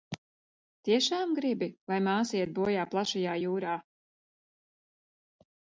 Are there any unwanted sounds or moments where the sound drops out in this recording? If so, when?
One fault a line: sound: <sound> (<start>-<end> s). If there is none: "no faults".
no faults